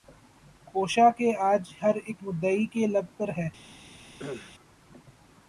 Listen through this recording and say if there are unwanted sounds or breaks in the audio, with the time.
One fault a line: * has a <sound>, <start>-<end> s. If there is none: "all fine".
* has a cough, 4.2-4.5 s